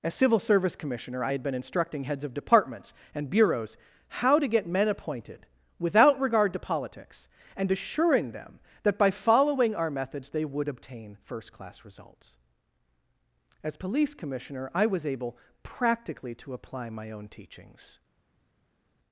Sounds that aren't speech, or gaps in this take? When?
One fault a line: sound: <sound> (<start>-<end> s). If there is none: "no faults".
no faults